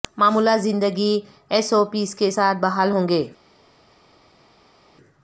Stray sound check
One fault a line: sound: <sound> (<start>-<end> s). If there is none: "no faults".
no faults